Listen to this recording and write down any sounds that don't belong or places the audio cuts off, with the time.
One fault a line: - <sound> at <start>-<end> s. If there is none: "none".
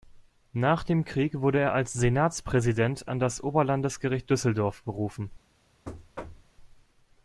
- thud at 5.9-6.5 s